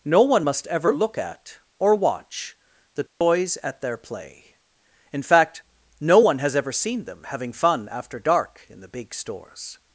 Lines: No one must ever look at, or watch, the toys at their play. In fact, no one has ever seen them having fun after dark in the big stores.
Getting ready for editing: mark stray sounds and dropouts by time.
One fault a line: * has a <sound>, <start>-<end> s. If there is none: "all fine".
* has a dropout, 3.1-3.2 s